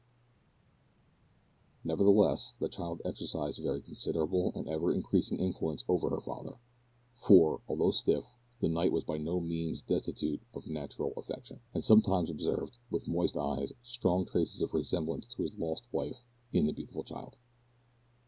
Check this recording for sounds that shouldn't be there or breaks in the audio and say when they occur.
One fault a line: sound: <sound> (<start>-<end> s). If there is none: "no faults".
no faults